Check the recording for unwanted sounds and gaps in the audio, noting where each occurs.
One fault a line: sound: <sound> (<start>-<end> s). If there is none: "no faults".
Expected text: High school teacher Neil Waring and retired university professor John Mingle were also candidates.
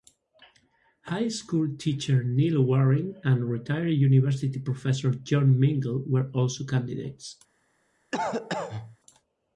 sound: cough (8.1-9.0 s)